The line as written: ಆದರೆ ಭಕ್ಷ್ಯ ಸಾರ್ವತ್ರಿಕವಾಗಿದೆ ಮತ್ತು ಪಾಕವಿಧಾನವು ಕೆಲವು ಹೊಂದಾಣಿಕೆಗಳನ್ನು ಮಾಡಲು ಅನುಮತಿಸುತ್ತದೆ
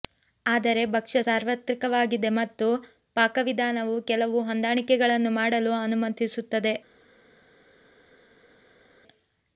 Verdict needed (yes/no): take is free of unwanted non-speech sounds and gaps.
yes